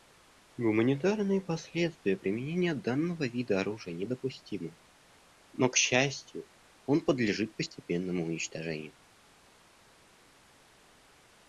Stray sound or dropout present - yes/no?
no